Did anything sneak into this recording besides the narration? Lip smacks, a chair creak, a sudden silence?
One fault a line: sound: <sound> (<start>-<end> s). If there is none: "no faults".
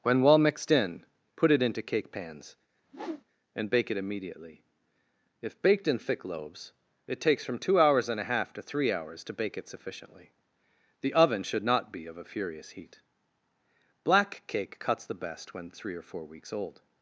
sound: whoosh (2.8-3.2 s)